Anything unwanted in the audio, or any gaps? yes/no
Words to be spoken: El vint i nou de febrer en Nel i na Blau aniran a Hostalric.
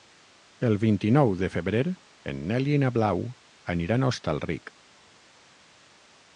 no